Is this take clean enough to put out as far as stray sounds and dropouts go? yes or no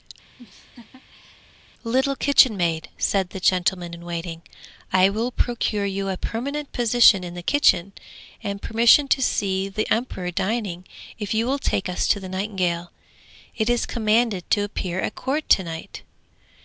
no